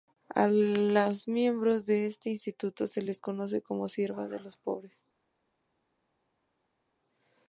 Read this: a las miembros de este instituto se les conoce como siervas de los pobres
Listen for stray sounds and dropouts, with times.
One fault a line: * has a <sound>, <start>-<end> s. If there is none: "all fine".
all fine